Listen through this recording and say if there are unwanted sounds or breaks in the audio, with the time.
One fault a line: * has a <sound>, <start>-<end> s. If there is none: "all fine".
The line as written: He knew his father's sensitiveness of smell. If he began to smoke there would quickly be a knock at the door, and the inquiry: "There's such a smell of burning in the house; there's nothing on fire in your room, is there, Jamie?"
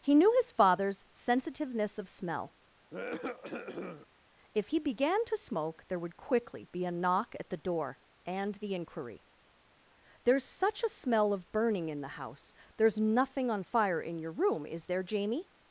* has a cough, 2.9-4.1 s